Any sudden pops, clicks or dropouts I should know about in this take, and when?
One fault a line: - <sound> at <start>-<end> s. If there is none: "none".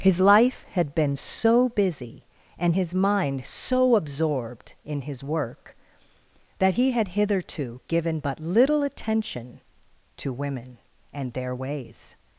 none